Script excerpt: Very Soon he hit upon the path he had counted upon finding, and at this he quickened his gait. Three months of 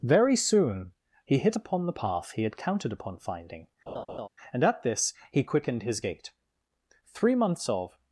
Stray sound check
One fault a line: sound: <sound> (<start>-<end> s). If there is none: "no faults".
sound: laugh (3.9-4.3 s)